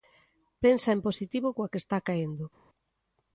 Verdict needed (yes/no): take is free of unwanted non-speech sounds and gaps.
yes